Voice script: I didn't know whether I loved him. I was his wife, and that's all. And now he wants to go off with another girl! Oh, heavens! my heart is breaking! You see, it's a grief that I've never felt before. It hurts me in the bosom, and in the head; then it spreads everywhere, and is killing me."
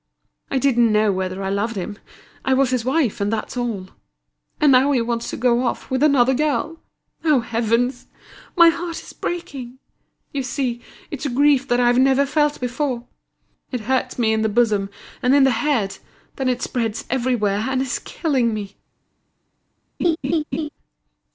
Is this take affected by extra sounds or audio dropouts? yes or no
yes